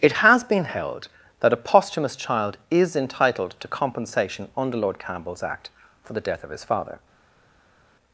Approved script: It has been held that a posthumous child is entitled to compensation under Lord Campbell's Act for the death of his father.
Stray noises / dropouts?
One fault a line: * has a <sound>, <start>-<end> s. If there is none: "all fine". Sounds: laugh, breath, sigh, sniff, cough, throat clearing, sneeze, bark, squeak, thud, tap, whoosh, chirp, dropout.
all fine